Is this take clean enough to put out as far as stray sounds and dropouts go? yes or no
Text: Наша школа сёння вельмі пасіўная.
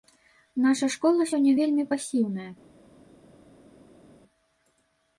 yes